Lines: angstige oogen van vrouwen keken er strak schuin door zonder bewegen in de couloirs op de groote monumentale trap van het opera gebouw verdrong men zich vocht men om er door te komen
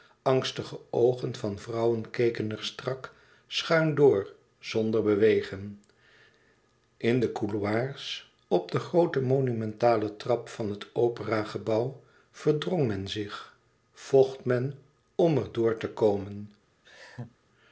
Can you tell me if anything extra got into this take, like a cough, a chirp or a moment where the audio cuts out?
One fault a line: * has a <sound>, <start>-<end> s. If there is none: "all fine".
* has a laugh, 16.8-17.4 s